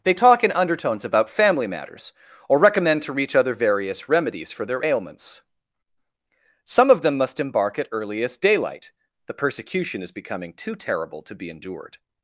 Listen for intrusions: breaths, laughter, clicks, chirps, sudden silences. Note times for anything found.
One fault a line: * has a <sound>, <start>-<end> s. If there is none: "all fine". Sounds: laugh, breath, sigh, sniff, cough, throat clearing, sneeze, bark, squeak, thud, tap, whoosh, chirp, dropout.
all fine